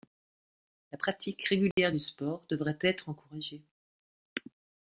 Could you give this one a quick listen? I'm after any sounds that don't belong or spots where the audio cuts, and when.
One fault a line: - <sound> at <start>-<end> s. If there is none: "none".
- dropout at 1.7-1.8 s